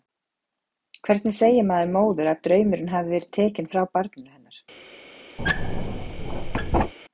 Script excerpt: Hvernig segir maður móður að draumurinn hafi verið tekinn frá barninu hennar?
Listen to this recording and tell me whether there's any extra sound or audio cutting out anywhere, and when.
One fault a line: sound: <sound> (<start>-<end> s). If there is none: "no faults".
sound: squeak (5.4-6.9 s)